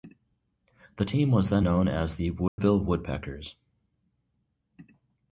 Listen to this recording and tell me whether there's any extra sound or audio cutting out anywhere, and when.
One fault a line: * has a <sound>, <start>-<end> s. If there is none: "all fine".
* has a dropout, 2.5-2.6 s